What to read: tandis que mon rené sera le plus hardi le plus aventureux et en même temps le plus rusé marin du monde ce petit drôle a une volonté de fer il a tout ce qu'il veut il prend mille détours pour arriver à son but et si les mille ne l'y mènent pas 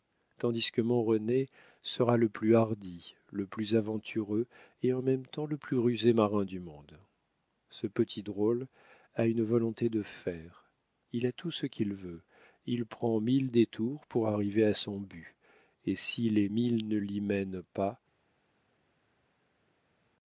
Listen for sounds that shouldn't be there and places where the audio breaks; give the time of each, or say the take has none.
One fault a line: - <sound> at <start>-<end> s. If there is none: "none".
none